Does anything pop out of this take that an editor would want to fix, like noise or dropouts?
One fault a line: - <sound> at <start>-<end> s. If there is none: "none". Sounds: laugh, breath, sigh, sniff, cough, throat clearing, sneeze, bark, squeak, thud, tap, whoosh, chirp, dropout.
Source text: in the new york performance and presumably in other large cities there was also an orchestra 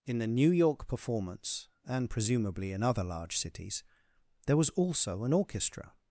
none